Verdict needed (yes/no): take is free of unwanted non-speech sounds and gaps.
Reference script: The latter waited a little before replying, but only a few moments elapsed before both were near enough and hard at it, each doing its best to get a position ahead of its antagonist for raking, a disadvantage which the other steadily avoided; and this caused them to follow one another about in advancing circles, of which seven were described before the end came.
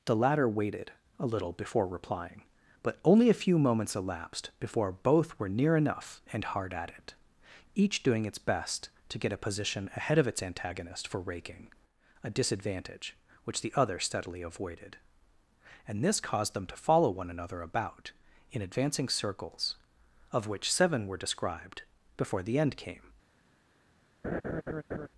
no